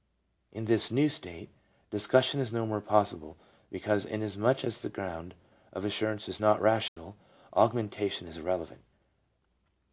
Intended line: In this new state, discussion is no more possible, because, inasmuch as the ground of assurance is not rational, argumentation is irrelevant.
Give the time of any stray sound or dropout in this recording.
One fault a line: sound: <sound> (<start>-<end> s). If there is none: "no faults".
sound: dropout (6.9-7.0 s)